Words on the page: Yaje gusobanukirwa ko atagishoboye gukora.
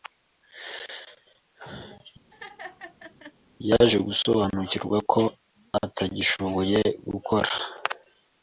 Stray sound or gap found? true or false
true